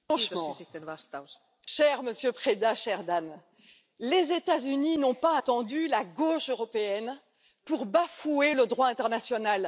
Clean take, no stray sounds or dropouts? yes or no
no